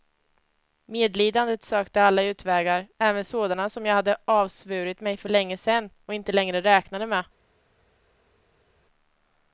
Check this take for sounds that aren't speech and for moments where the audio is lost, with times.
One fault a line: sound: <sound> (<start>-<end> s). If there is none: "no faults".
no faults